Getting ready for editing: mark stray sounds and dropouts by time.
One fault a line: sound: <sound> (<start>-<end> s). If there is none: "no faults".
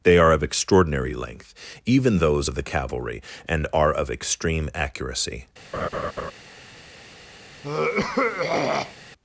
sound: laugh (5.7-6.3 s)
sound: throat clearing (7.6-9.0 s)